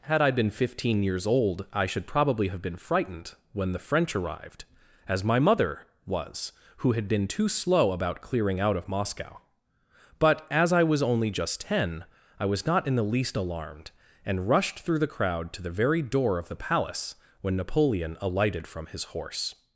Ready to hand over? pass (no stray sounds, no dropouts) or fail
pass